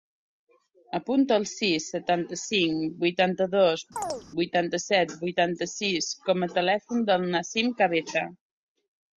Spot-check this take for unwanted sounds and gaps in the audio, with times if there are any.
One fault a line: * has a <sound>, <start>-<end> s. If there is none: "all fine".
* has a chirp, 4.0-4.2 s